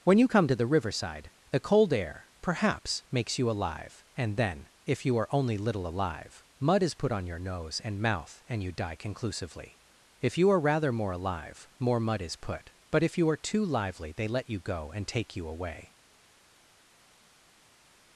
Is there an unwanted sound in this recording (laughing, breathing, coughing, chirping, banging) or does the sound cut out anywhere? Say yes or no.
no